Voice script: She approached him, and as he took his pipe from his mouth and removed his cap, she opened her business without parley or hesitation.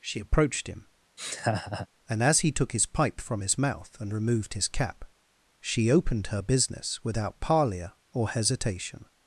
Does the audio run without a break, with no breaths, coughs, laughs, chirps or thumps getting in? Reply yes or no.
no